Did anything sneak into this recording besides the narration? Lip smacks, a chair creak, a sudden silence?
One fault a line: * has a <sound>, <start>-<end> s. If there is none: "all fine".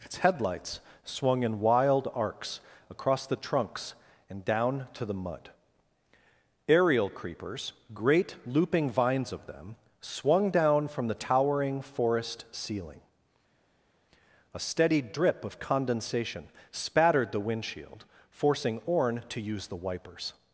all fine